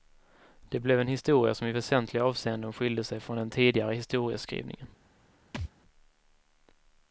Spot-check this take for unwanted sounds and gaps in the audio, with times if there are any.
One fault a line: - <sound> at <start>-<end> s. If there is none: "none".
- thud at 5.5-5.7 s